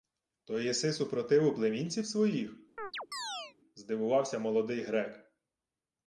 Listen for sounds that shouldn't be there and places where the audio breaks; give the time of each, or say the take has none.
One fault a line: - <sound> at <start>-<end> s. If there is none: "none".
- chirp at 2.8-3.5 s